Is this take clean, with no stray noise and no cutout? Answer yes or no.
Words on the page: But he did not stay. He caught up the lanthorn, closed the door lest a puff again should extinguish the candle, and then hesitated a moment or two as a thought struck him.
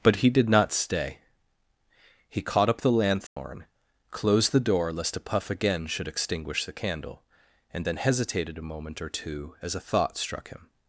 no